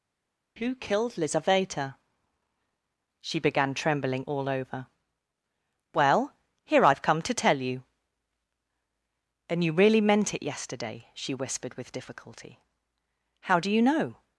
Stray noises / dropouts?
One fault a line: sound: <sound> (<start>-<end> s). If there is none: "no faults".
no faults